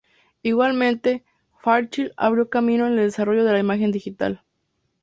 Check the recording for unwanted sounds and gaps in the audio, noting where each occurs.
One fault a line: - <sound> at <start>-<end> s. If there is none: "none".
none